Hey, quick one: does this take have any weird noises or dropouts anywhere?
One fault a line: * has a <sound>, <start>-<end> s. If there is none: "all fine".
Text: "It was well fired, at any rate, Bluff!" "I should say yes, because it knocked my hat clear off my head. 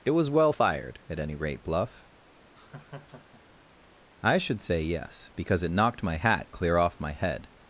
* has a laugh, 2.6-3.7 s